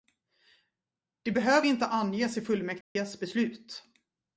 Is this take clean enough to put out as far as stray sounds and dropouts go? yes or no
no